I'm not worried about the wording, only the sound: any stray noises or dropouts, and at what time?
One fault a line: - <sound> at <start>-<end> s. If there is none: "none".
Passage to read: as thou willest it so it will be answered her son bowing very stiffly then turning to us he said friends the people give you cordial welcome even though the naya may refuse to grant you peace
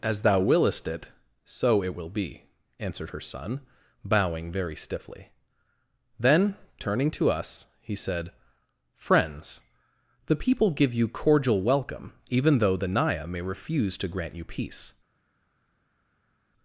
none